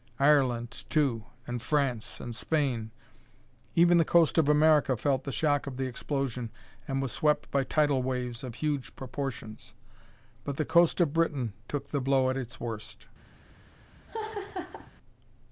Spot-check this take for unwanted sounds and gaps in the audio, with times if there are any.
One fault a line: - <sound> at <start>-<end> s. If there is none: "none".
- laugh at 14.1-14.9 s